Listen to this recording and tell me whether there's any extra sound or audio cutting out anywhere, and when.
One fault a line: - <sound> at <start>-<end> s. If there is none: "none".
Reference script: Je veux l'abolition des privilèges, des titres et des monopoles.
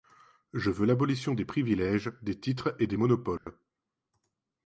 - dropout at 3.4-3.5 s